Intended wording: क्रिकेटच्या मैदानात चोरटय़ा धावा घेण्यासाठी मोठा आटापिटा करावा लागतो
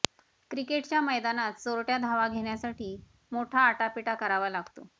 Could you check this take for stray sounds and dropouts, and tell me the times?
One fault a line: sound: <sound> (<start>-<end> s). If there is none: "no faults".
no faults